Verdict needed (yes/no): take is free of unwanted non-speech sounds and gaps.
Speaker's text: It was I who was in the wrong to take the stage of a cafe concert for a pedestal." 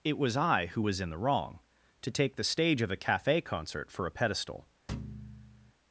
no